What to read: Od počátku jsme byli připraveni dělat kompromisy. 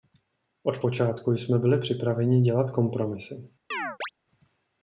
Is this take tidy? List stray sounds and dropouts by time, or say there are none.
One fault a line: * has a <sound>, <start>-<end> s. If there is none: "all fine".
* has a chirp, 3.7-4.1 s